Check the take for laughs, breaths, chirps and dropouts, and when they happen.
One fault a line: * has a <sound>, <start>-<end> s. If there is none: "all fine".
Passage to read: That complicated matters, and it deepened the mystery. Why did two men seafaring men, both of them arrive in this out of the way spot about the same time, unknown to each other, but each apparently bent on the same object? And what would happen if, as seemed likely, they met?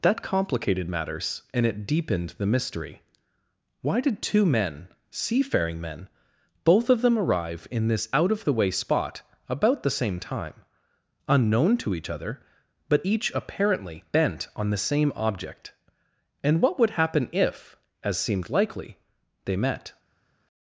all fine